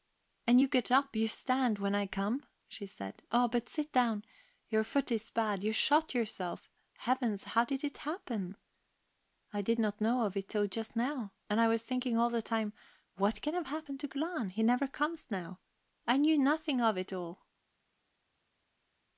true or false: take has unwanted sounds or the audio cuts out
false